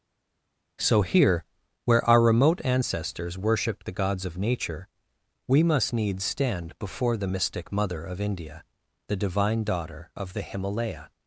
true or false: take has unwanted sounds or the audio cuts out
false